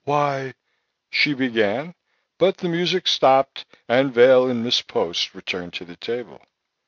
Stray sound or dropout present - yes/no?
no